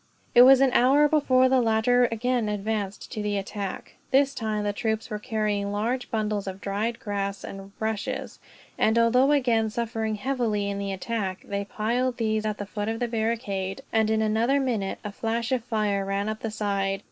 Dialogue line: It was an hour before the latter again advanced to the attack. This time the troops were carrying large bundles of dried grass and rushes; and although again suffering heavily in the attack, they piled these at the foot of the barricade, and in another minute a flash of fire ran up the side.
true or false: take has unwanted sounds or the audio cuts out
false